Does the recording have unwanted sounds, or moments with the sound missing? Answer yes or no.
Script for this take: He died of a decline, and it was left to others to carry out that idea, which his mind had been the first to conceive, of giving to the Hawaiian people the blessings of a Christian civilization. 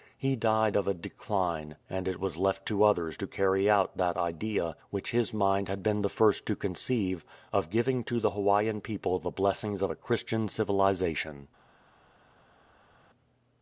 no